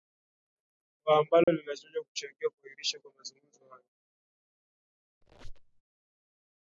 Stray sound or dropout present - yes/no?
yes